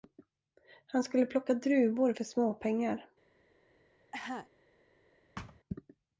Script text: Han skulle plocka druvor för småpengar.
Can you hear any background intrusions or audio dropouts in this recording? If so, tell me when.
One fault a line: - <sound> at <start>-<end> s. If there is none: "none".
- cough at 4.1-4.5 s
- thud at 5.4-5.6 s